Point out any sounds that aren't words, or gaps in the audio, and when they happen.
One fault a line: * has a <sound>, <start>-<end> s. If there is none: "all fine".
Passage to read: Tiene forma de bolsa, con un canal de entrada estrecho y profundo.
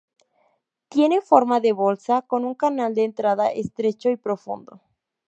all fine